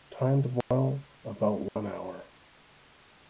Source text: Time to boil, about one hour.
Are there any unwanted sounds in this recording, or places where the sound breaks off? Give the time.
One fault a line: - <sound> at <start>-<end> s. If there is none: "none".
- dropout at 0.6-0.7 s
- dropout at 1.7-1.8 s